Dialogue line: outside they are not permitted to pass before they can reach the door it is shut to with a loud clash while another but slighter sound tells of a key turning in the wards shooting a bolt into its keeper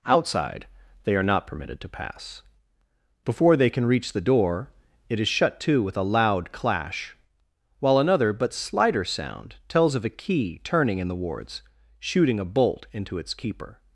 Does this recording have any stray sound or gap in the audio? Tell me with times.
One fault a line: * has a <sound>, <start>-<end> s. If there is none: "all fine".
all fine